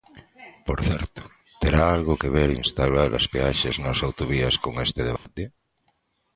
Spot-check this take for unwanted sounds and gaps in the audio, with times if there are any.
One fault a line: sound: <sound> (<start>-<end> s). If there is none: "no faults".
sound: dropout (5.2-5.3 s)